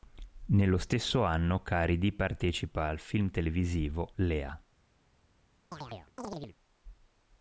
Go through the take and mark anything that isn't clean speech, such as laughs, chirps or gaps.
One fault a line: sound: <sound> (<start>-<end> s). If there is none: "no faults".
sound: chirp (5.7-6.6 s)